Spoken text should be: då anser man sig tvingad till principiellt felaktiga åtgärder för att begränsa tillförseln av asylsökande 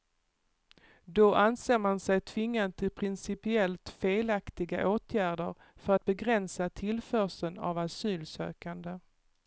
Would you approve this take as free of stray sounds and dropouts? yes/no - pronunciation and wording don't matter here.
yes